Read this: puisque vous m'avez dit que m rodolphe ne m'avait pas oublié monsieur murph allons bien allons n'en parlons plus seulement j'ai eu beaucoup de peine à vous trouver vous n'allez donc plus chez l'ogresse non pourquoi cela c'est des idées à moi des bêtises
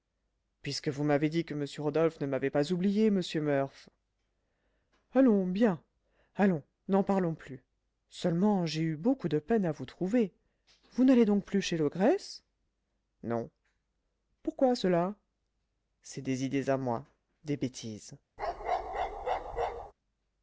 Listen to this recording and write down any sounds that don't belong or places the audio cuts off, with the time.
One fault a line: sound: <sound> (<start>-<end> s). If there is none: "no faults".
sound: bark (18.4-19.9 s)